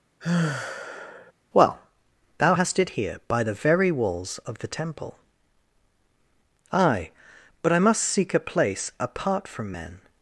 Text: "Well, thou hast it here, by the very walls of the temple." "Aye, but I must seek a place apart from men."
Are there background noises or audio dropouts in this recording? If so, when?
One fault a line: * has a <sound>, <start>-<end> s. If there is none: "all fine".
* has a sigh, 0.2-1.3 s